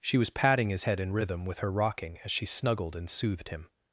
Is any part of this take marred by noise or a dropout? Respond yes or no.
no